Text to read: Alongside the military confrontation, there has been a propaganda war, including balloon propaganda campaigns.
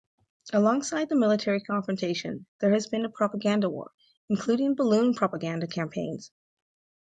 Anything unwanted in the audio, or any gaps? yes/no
no